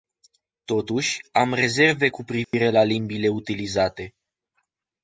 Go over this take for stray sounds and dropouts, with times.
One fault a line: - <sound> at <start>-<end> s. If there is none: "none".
- dropout at 2.4-2.5 s